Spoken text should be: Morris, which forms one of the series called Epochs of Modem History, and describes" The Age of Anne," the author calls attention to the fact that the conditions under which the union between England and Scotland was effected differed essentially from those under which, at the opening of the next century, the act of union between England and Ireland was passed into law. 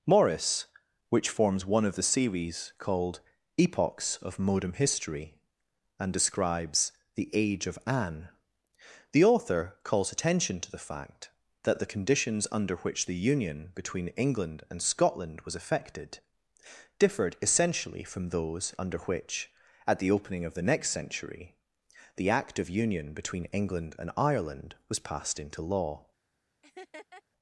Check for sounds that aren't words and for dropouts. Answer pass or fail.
fail